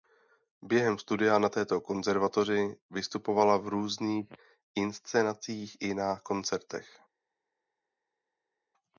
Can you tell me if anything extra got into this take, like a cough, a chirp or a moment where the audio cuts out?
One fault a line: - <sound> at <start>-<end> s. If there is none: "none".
none